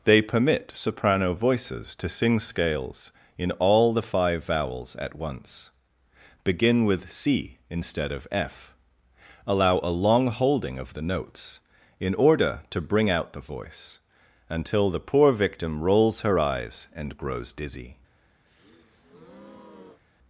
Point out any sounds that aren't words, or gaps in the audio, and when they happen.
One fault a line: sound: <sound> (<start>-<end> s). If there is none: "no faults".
sound: breath (18.5-20.0 s)